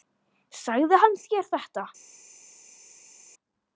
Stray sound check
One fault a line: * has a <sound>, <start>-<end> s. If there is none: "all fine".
all fine